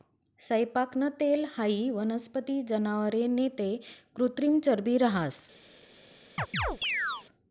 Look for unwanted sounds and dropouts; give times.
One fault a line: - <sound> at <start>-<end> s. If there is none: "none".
- chirp at 6.4-7.2 s